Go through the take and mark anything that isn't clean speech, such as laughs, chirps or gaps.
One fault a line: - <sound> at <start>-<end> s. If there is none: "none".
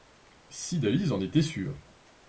none